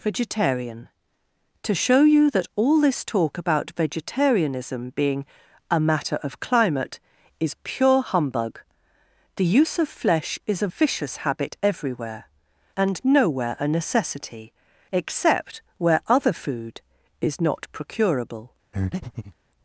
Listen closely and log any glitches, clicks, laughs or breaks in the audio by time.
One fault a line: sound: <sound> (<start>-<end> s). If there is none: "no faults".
sound: breath (18.7-19.4 s)